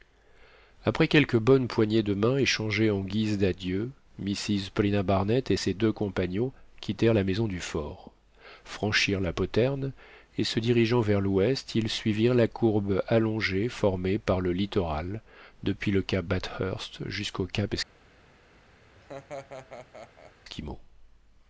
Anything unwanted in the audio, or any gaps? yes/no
yes